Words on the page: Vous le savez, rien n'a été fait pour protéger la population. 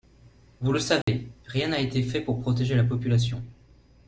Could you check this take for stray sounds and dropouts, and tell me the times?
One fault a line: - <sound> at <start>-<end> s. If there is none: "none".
- dropout at 1.0-1.1 s